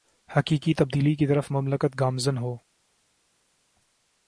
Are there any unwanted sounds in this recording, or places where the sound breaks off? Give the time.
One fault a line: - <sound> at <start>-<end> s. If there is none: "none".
none